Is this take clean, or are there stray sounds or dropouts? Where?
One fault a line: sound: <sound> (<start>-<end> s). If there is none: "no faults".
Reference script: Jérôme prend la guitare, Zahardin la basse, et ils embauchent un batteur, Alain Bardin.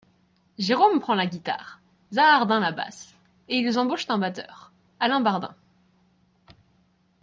no faults